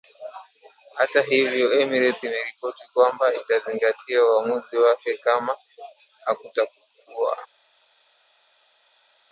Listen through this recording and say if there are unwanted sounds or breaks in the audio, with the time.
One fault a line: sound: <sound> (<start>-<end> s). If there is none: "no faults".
no faults